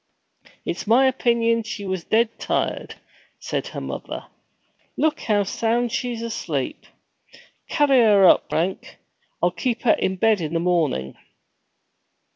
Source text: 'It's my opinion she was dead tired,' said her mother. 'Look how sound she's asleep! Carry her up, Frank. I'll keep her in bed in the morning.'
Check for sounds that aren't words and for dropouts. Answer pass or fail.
pass